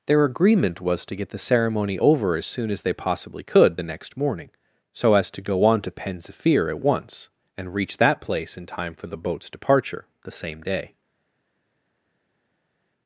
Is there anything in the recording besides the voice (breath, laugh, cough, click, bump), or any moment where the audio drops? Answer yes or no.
no